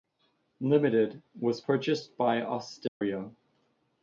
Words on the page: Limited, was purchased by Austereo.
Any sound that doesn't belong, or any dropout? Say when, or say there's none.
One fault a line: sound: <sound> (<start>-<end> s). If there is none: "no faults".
sound: dropout (2.9-3.0 s)